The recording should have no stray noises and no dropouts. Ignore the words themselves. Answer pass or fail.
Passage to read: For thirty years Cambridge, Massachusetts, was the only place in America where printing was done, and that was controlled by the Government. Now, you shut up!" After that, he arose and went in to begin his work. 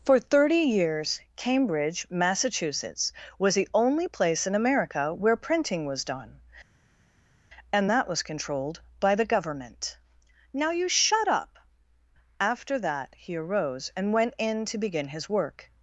pass